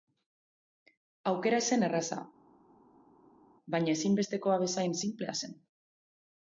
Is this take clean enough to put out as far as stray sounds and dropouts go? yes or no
yes